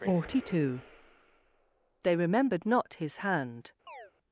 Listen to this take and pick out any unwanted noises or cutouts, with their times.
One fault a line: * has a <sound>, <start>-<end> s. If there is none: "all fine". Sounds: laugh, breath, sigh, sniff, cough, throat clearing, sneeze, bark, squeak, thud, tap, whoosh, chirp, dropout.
* has a chirp, 3.9-4.1 s